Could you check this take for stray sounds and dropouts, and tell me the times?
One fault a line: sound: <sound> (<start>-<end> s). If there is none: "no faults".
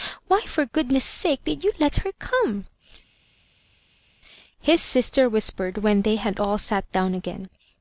no faults